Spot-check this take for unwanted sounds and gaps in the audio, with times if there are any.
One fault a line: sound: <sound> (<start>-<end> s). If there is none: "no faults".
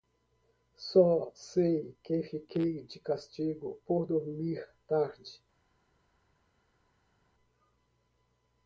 no faults